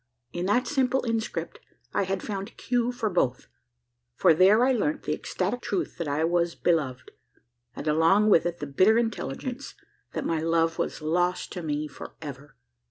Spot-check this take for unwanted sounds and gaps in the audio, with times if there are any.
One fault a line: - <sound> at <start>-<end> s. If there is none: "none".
none